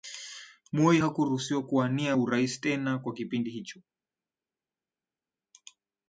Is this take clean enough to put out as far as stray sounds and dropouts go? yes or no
yes